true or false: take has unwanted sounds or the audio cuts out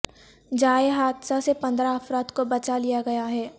false